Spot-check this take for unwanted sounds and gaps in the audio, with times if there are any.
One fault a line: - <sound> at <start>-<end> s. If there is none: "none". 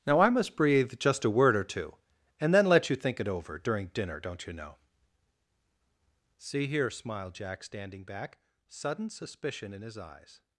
none